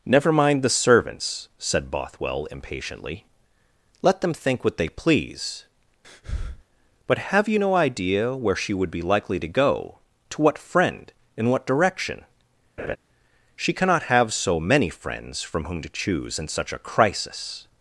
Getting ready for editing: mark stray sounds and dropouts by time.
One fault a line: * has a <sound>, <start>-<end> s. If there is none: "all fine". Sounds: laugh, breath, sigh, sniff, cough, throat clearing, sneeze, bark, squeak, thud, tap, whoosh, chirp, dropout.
* has a breath, 6.0-6.6 s
* has a laugh, 12.8-13.0 s